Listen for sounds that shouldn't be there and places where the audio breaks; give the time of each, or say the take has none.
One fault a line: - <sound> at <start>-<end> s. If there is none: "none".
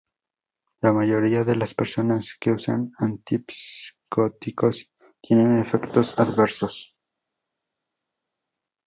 none